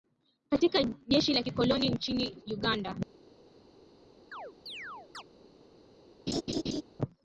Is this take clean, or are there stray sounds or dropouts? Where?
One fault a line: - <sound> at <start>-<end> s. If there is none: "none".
- chirp at 4.3-5.2 s
- laugh at 6.3-6.8 s